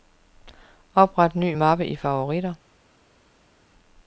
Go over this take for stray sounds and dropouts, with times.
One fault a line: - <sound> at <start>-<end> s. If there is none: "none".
none